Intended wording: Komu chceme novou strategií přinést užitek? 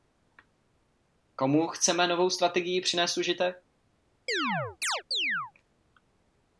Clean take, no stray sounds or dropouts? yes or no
no